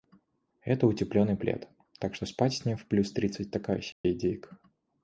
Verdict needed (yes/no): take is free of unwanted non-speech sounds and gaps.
no